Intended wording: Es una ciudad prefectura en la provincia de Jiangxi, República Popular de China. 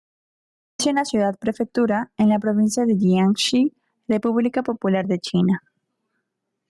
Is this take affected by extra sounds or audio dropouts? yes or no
no